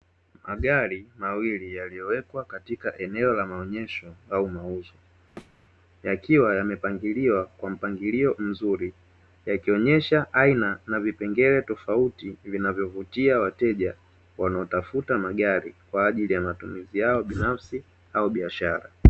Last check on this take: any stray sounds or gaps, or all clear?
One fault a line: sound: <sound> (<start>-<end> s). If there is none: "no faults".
sound: thud (5.4-5.6 s)